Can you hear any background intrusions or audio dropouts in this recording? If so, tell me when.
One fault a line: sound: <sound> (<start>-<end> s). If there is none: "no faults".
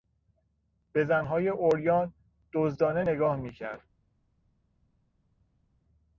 no faults